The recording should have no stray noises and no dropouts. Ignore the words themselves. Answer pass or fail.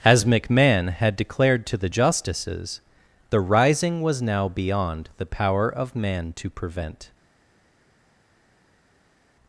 pass